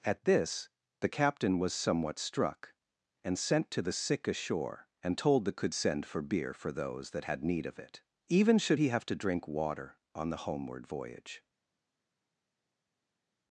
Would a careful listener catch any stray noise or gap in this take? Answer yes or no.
no